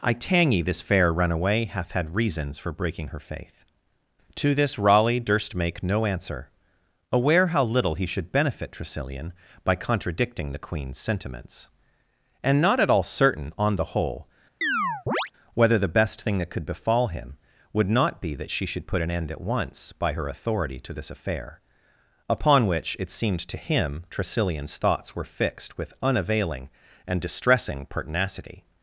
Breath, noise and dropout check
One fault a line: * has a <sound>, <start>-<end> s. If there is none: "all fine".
* has a chirp, 14.6-15.3 s